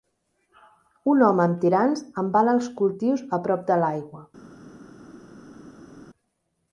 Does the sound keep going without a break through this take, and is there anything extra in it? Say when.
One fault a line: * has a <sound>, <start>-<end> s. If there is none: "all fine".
all fine